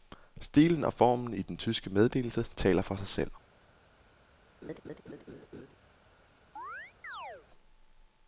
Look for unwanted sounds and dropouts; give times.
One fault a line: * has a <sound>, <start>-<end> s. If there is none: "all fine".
* has a laugh, 4.6-5.7 s
* has a chirp, 6.6-7.5 s